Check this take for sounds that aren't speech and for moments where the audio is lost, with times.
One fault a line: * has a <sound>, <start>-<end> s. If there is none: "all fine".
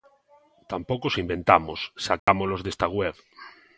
* has a dropout, 2.2-2.3 s